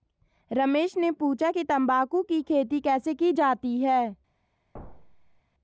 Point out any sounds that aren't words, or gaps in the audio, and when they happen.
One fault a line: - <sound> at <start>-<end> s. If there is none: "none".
- thud at 4.7-5.4 s